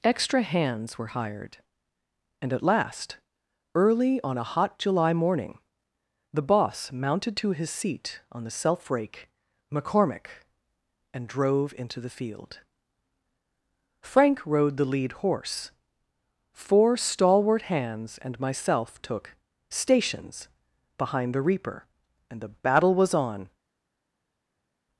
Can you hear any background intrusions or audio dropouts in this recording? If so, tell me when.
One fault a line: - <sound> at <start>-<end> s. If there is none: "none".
none